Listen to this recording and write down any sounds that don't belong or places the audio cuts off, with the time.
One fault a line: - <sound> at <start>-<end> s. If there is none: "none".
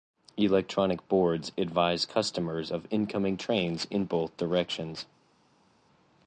none